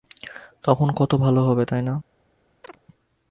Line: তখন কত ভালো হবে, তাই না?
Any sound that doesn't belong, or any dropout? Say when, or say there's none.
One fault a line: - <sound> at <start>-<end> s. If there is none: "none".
- chirp at 2.6-2.8 s